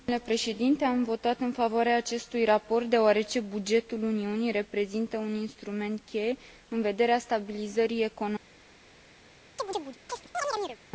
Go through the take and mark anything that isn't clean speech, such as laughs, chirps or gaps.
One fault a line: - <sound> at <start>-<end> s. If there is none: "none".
- chirp at 9.6-10.8 s